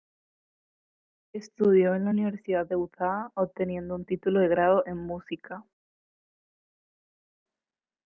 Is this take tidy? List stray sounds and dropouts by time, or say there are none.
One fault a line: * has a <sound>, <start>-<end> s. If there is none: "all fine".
all fine